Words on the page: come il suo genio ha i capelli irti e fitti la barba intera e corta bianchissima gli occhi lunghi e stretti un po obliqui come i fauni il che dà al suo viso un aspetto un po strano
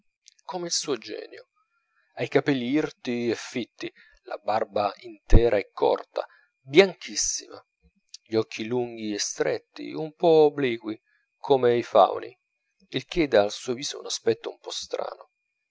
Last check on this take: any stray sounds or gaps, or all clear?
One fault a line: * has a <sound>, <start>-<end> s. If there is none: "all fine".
all fine